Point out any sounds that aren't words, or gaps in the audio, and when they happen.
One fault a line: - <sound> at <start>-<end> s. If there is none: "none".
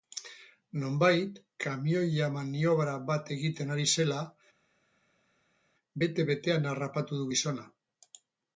none